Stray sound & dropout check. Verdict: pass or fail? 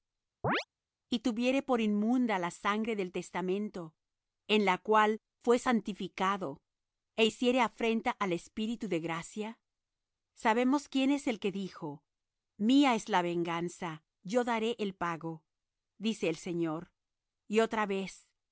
fail